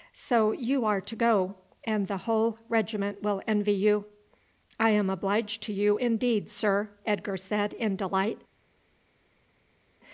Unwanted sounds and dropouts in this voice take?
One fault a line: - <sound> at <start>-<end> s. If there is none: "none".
none